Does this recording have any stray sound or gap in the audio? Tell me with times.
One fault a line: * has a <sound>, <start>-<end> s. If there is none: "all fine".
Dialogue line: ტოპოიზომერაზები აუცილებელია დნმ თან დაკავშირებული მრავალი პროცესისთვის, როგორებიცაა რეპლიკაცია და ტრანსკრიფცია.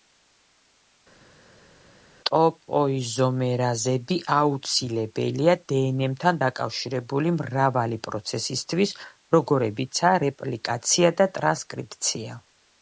all fine